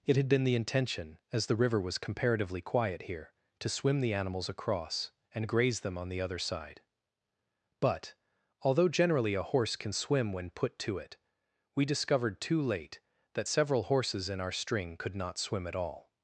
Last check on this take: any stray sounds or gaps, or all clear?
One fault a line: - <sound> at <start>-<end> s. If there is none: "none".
none